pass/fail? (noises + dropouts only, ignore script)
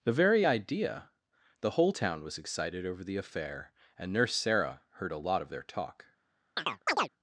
fail